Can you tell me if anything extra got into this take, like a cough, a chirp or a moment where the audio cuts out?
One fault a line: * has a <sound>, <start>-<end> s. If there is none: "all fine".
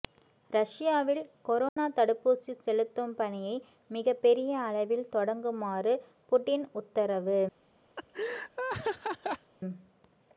* has a dropout, 1.7-1.8 s
* has a laugh, 8.0-9.5 s